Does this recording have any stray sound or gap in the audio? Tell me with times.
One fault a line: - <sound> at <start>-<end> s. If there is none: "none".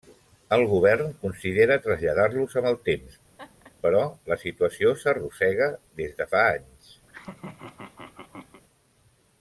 - laugh at 3.4-3.7 s
- laugh at 7.1-8.6 s